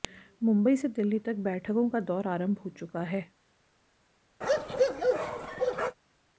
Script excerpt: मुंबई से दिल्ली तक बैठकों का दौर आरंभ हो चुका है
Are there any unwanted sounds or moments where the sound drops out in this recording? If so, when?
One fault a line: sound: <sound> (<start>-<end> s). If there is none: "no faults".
sound: bark (4.4-6.0 s)